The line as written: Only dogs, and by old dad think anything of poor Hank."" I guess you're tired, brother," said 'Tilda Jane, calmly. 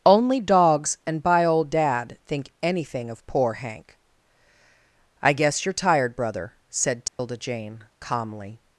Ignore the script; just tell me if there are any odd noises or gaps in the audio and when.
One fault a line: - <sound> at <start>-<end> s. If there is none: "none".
- dropout at 7.1-7.2 s